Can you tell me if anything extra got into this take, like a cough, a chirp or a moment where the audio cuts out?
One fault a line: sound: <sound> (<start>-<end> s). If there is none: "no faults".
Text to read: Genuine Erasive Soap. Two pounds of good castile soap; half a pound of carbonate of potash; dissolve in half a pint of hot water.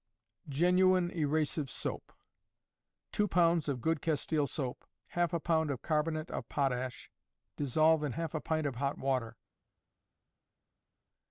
no faults